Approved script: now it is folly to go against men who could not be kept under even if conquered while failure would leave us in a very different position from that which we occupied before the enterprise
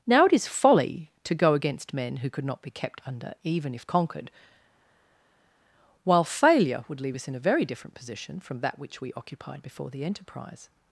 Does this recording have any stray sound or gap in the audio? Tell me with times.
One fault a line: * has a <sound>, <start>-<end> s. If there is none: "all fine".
all fine